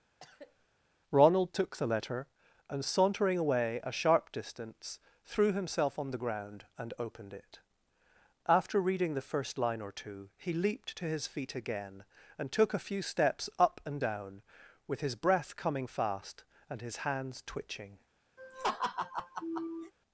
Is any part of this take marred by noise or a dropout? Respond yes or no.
yes